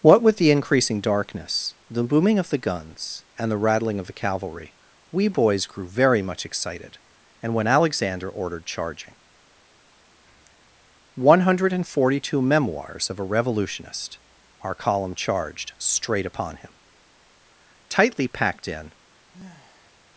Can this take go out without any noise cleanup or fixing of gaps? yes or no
no